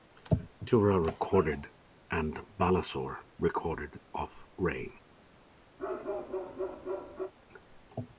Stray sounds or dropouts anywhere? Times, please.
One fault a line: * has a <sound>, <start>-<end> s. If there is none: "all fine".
* has a bark, 5.8-7.3 s